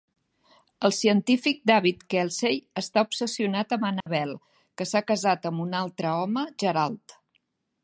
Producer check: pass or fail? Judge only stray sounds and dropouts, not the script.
fail